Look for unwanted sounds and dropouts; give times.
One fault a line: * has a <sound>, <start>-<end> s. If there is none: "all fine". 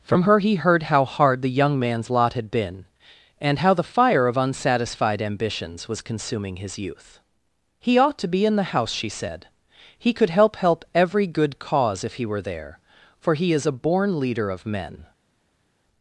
all fine